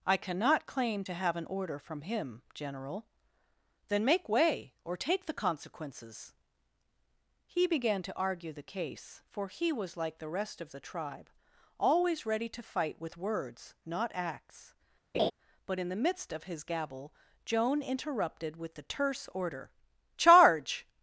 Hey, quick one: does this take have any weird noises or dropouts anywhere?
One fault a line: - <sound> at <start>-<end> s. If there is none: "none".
- laugh at 15.1-15.3 s